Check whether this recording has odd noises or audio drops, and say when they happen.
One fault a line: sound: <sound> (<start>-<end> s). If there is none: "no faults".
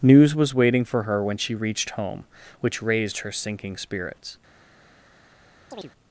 sound: chirp (5.7-5.9 s)